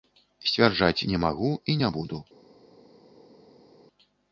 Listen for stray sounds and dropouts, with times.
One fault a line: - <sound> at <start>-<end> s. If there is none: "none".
none